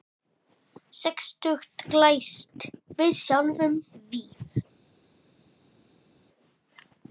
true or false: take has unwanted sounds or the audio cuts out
false